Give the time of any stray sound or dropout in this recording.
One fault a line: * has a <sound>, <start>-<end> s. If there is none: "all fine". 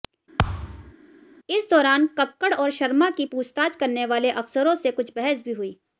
* has a thud, 0.4-0.9 s